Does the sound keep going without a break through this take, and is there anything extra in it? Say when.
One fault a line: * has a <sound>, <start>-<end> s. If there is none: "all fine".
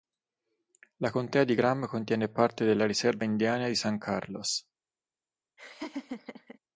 * has a laugh, 5.6-6.6 s